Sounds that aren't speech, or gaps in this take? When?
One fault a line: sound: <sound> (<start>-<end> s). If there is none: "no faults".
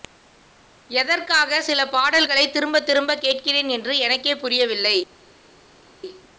no faults